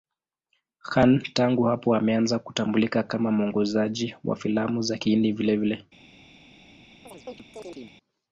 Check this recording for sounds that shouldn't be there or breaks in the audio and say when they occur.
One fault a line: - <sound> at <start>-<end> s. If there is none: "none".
- chirp at 7.1-8.0 s